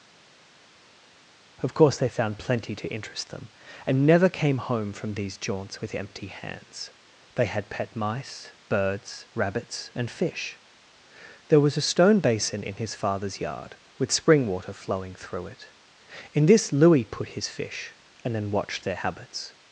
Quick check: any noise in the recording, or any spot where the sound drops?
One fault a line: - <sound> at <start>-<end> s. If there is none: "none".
none